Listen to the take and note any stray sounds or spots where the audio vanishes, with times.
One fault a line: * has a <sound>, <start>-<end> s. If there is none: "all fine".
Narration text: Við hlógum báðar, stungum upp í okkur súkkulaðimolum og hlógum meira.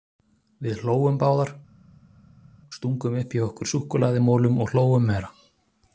all fine